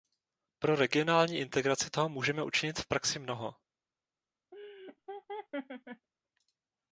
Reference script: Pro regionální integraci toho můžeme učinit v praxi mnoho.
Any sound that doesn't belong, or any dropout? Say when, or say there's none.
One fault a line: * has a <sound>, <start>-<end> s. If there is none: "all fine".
* has a laugh, 4.5-6.1 s